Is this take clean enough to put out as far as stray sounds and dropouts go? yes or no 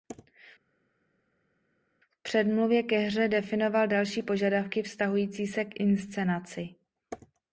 yes